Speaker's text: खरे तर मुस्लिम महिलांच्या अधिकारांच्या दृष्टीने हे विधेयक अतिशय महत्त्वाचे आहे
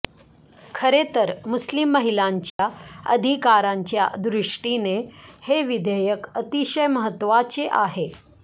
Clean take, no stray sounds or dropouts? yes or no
no